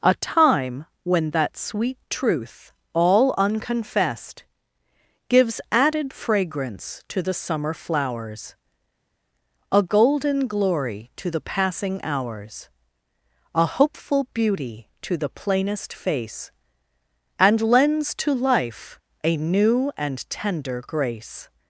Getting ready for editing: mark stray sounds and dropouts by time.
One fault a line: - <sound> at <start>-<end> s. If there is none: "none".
none